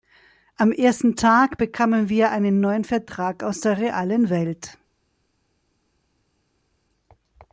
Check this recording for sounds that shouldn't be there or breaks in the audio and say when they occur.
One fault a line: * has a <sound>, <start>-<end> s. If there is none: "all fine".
all fine